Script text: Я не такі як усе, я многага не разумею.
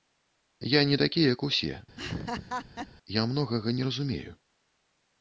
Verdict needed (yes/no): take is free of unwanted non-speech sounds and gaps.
no